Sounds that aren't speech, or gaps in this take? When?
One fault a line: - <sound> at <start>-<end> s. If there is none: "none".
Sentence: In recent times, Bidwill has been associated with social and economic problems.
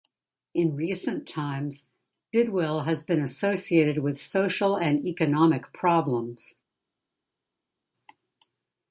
none